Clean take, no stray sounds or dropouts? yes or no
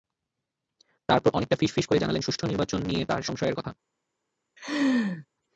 no